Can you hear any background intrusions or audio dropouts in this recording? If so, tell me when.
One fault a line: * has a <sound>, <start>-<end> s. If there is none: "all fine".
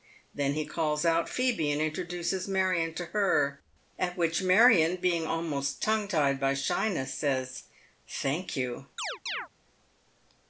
* has a chirp, 9.0-9.5 s